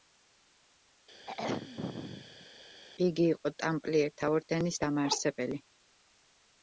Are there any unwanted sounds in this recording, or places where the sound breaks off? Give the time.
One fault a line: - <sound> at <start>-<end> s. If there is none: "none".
- throat clearing at 1.3-2.5 s